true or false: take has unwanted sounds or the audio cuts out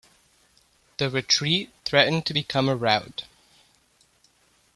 false